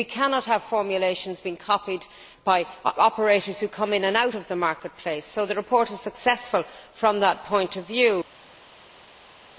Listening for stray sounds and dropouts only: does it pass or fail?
pass